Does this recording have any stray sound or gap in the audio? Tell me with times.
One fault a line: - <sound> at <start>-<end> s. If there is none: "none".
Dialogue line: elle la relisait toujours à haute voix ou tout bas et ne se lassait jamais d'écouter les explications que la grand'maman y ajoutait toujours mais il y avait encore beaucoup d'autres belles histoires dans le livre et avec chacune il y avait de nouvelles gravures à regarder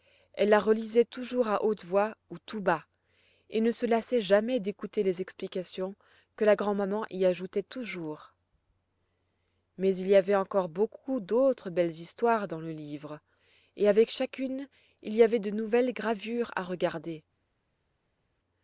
none